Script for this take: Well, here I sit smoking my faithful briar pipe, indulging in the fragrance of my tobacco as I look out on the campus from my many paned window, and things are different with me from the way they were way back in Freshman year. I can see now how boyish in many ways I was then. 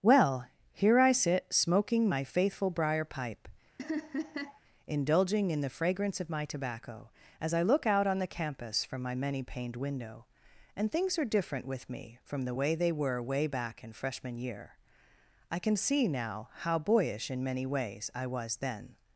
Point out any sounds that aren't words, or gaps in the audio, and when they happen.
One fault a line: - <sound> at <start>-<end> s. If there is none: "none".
- laugh at 3.8-4.6 s